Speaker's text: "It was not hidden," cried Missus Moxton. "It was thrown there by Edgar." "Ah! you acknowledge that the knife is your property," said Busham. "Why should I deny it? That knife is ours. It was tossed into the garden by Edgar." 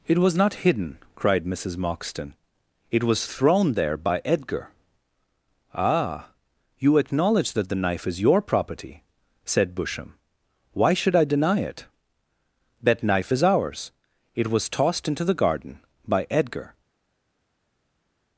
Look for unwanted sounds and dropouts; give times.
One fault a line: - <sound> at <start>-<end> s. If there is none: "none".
none